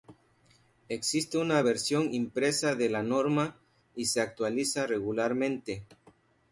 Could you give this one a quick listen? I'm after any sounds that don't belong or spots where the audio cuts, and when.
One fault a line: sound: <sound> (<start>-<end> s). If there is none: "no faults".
no faults